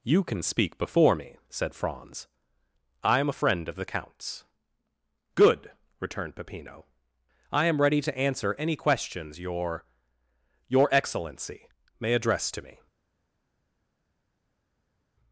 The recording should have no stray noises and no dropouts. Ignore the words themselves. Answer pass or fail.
pass